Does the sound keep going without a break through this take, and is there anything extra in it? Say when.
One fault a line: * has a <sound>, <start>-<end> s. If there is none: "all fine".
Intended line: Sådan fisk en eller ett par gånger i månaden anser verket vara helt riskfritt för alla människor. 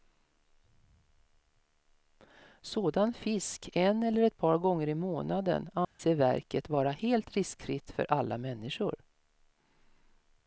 * has a dropout, 5.8-6.0 s